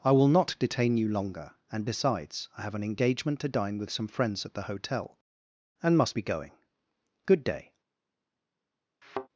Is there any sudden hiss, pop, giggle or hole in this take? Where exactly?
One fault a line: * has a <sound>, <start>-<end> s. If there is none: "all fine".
* has a thud, 9.0-9.3 s